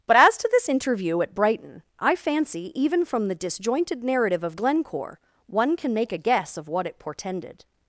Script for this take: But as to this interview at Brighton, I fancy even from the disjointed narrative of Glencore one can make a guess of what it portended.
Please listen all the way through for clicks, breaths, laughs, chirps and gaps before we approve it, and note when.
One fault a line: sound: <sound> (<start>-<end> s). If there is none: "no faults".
no faults